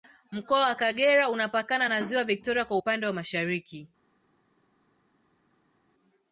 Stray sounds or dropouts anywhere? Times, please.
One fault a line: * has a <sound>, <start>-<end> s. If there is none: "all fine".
all fine